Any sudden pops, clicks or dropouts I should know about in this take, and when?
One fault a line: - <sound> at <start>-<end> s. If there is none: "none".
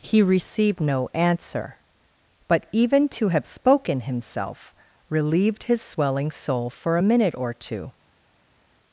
none